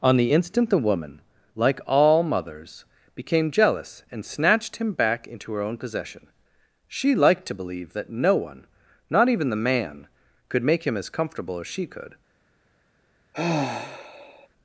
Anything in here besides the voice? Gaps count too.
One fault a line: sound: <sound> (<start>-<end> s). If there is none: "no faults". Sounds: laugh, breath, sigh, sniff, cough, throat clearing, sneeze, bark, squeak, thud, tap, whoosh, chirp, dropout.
sound: sigh (13.3-14.5 s)